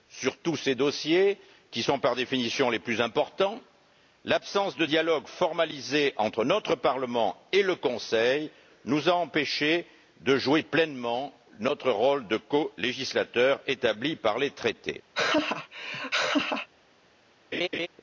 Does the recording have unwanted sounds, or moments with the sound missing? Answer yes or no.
yes